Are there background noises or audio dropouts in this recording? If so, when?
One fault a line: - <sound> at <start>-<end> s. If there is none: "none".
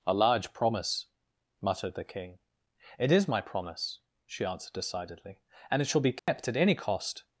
- dropout at 6.2-6.3 s